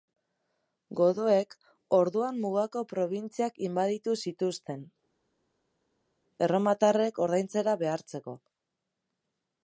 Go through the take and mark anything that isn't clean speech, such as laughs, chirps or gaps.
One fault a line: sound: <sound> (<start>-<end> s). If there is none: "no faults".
no faults